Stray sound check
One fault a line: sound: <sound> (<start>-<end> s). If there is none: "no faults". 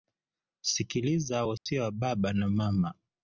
sound: dropout (1.6-1.7 s)